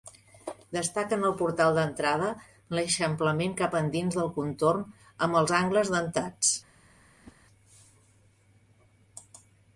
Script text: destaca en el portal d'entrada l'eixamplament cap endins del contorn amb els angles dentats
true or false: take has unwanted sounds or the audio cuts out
true